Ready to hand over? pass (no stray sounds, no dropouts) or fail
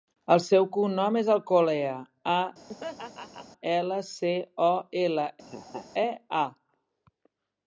fail